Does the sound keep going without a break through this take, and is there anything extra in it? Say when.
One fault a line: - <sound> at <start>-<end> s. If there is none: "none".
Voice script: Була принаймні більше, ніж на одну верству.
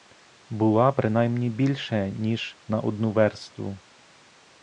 none